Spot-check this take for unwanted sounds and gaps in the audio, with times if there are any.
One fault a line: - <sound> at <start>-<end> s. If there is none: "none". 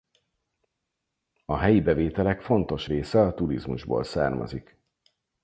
none